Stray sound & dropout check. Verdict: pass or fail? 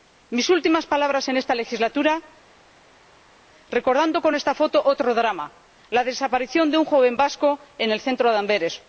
pass